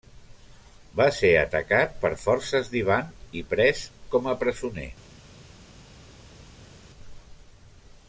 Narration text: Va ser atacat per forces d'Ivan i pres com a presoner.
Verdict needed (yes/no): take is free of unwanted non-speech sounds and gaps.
yes